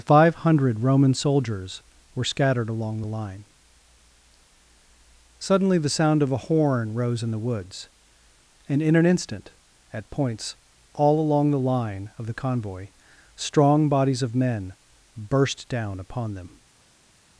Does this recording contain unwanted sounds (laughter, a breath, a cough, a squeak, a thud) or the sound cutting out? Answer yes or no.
no